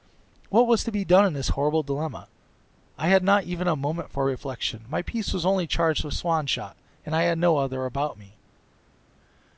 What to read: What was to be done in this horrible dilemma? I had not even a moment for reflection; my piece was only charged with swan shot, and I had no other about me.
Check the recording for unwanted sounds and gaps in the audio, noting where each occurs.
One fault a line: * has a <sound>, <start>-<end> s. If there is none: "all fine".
all fine